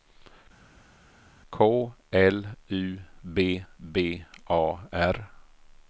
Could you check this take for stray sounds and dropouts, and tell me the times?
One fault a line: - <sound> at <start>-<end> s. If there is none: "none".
none